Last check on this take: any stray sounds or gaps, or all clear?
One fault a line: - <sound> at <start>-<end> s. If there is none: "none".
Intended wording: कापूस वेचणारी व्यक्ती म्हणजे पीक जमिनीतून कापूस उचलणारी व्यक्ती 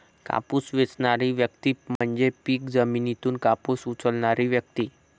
- dropout at 2.0-2.0 s